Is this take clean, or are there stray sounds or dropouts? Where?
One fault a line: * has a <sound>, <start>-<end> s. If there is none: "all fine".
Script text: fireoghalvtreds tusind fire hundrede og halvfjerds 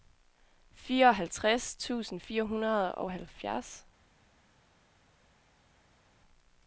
all fine